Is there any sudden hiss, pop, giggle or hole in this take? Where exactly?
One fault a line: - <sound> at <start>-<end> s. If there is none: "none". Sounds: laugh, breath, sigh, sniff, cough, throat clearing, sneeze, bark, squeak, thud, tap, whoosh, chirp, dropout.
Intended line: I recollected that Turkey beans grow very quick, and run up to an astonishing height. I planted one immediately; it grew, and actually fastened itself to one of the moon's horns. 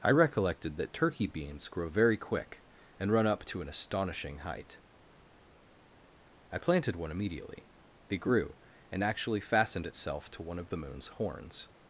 none